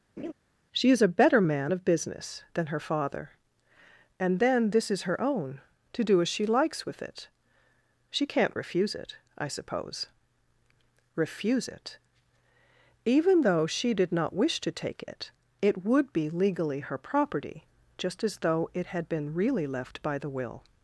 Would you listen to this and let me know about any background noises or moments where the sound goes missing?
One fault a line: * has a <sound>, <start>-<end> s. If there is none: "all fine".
* has a laugh, 0.2-0.3 s